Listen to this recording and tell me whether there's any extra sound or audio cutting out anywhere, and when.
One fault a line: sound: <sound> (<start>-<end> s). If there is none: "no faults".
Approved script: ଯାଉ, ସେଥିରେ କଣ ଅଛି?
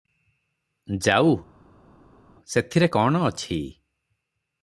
no faults